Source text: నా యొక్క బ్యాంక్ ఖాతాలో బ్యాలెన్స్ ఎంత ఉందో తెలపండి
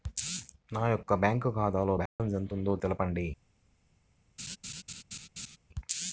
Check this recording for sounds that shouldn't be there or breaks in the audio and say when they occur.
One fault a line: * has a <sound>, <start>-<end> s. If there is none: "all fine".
* has a dropout, 2.1-2.2 s
* has a laugh, 4.4-5.6 s